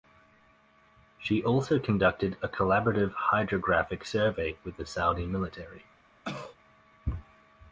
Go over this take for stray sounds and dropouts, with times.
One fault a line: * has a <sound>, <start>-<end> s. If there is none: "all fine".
* has a cough, 6.2-6.6 s